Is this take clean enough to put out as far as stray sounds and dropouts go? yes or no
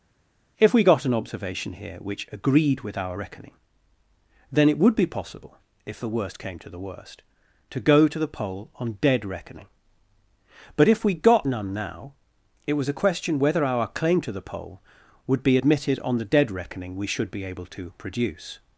yes